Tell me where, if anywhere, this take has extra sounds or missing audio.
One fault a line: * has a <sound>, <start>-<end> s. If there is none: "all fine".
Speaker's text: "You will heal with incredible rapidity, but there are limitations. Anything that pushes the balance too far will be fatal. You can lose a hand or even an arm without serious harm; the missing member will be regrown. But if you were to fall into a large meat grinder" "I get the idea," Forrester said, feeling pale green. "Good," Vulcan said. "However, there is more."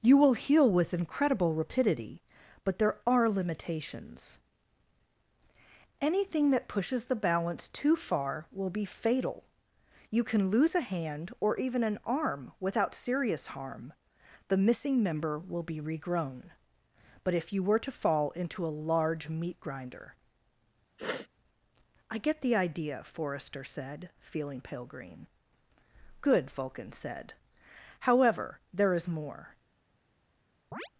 * has a sniff, 21.0-21.3 s
* has a chirp, 30.7-30.9 s